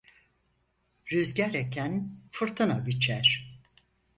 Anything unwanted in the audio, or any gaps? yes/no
no